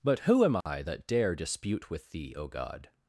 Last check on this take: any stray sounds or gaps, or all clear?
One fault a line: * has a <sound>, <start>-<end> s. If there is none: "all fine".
* has a dropout, 0.6-0.7 s